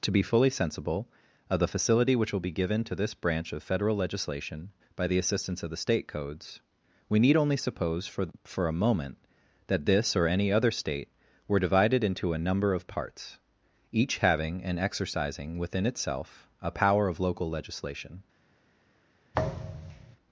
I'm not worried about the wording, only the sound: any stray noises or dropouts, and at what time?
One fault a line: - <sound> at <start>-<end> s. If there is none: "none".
- thud at 19.3-20.2 s